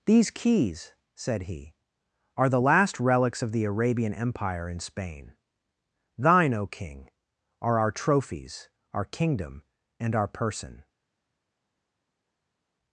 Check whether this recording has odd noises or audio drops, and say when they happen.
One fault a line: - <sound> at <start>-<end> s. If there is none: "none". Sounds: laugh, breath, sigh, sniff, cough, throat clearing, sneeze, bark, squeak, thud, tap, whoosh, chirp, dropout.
none